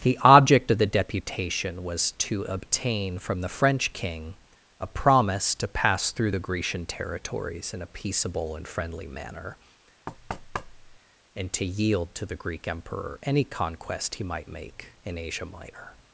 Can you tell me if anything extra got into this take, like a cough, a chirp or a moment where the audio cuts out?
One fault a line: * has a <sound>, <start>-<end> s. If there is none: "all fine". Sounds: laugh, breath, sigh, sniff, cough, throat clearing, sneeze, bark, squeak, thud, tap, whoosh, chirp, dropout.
* has a thud, 10.1-11.0 s